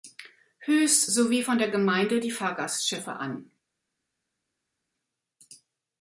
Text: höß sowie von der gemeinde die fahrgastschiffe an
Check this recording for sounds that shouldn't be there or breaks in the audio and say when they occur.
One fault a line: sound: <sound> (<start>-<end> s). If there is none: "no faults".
no faults